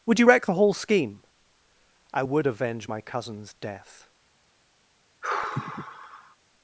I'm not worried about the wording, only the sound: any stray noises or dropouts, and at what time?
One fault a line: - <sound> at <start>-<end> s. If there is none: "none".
- sigh at 5.2-6.4 s